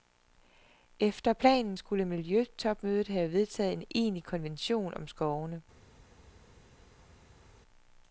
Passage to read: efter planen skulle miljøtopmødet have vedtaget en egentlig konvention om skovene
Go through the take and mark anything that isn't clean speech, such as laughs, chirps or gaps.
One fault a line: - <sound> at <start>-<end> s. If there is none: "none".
none